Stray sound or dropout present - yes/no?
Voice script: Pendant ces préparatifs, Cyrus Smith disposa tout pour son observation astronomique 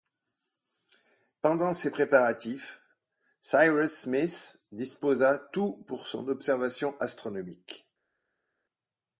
no